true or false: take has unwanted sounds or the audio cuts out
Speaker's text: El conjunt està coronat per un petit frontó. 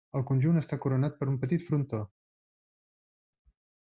false